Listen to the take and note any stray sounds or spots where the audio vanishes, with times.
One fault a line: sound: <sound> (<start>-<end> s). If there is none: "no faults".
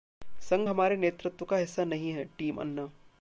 no faults